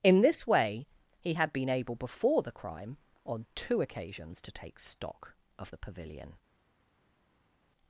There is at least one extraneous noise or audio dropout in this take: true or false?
false